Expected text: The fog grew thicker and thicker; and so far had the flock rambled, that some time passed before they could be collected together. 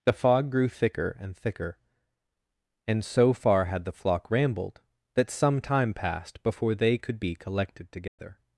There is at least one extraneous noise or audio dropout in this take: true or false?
true